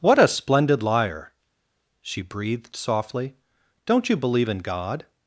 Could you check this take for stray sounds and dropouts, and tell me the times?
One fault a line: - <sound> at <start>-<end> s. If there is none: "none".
none